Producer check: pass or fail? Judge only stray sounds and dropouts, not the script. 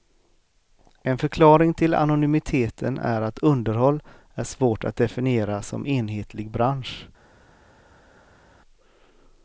pass